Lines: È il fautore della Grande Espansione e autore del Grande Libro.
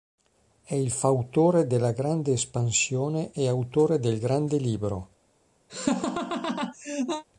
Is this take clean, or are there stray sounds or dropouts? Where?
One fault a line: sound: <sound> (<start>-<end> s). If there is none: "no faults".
sound: laugh (5.7-7.2 s)